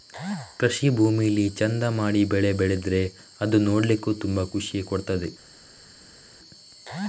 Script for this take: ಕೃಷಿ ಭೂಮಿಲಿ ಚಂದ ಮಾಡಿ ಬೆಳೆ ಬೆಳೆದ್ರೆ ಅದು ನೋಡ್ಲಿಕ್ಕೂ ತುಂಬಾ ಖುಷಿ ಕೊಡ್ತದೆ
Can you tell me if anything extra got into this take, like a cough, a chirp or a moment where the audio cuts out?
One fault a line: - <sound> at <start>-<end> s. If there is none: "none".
none